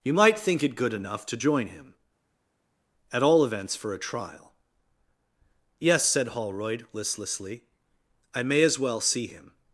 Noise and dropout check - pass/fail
pass